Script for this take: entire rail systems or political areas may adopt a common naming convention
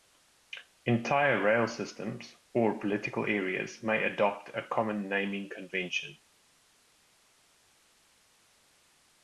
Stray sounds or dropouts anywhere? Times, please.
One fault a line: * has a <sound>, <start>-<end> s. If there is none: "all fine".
all fine